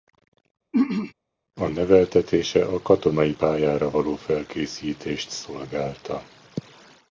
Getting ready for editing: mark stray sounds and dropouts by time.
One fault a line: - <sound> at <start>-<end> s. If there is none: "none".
- throat clearing at 0.7-1.1 s